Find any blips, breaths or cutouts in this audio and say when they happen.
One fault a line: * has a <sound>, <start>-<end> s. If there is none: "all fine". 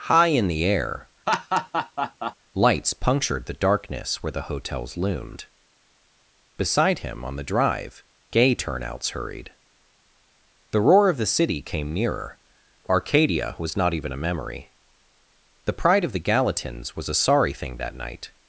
* has a laugh, 1.3-2.4 s